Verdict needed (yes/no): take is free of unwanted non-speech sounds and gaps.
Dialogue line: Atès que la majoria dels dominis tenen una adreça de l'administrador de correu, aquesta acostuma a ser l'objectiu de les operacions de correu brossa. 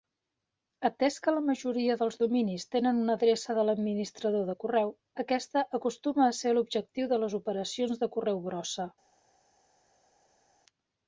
yes